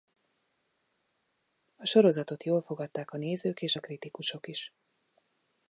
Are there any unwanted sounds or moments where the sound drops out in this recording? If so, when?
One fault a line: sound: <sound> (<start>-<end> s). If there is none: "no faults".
no faults